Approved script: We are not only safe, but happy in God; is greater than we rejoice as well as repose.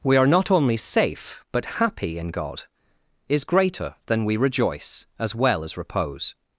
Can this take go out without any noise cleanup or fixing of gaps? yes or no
yes